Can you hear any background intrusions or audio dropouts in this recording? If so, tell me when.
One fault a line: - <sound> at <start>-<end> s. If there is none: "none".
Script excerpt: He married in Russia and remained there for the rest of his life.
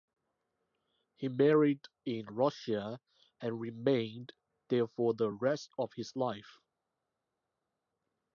none